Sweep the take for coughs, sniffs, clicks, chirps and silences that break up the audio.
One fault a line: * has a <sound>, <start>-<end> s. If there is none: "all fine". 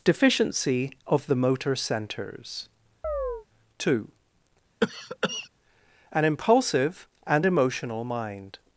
* has a chirp, 3.0-3.5 s
* has a cough, 4.8-5.5 s